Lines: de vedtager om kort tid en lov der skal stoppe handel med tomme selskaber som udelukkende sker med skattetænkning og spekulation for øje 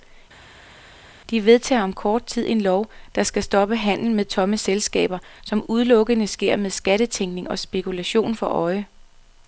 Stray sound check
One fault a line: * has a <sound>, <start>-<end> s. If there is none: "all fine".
all fine